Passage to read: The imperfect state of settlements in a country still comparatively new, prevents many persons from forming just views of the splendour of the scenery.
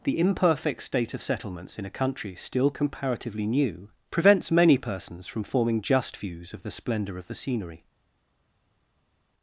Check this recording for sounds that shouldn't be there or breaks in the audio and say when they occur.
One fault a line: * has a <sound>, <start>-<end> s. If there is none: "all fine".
all fine